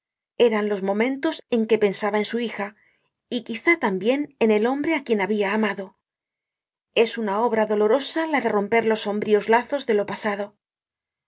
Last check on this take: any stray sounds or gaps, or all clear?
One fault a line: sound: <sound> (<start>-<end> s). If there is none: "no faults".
no faults